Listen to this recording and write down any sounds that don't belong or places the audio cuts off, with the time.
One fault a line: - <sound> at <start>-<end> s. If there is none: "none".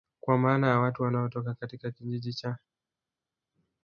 none